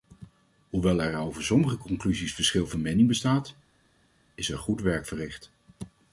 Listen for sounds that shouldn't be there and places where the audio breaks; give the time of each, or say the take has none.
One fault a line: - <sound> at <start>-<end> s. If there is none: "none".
none